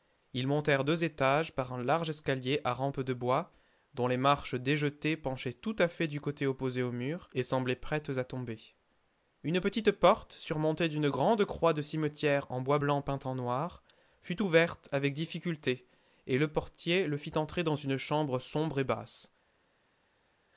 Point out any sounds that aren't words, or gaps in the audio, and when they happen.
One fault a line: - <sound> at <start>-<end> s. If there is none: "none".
none